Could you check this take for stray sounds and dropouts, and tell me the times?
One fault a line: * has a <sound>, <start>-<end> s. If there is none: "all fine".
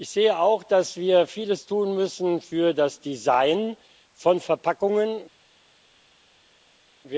all fine